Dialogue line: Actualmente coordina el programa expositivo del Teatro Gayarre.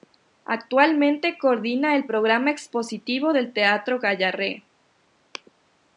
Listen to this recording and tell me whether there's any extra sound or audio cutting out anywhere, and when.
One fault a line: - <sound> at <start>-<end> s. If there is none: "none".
none